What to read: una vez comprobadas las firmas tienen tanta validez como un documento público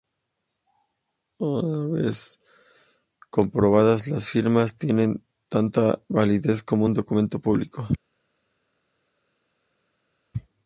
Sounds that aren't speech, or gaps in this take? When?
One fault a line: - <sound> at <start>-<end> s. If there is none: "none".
none